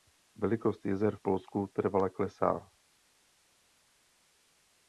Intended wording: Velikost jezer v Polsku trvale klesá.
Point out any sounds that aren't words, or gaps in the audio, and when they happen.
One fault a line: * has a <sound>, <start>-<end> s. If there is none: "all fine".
all fine